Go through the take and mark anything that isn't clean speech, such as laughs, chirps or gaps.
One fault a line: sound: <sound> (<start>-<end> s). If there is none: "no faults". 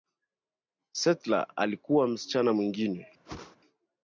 sound: whoosh (3.2-3.6 s)